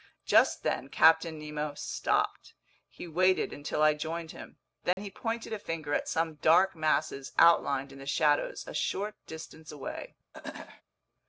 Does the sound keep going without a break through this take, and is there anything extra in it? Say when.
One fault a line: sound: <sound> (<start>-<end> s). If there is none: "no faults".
sound: dropout (4.9-5.0 s)
sound: throat clearing (10.3-10.8 s)